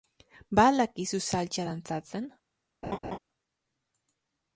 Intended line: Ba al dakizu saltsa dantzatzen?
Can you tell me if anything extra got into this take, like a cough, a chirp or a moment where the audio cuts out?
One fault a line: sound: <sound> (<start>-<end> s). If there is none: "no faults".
sound: laugh (2.8-3.2 s)